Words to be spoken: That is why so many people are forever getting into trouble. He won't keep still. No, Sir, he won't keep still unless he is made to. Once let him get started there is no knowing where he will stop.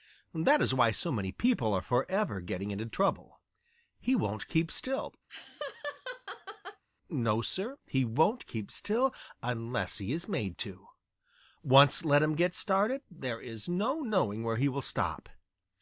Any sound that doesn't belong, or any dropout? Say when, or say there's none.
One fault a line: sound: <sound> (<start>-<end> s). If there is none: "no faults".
sound: laugh (5.3-6.8 s)